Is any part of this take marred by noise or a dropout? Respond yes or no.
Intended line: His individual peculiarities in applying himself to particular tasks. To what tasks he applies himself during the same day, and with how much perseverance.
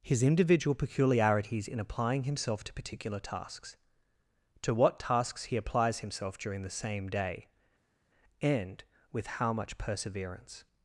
no